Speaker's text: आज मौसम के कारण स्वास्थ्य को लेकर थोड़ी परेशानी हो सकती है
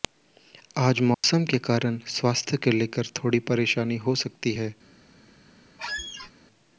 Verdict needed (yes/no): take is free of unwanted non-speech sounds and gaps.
no